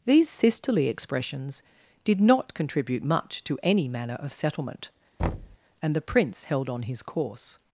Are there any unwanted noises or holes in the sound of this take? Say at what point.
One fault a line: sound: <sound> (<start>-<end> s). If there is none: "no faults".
sound: thud (5.2-5.6 s)